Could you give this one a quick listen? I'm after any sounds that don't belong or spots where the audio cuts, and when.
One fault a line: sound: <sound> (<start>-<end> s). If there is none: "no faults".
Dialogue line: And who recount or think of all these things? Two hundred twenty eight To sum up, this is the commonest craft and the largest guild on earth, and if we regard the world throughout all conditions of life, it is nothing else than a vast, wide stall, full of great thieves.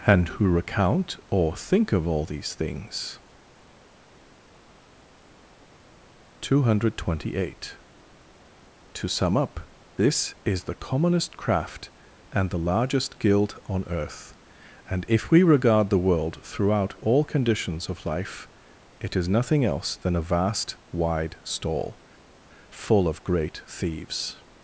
no faults